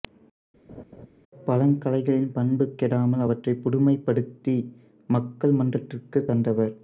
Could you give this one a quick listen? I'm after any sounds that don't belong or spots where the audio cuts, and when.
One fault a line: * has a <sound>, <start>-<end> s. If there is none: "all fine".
* has a laugh, 0.7-1.1 s